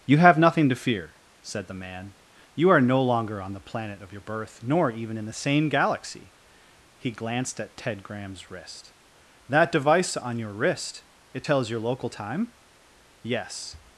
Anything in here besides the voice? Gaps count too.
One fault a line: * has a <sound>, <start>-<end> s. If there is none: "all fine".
all fine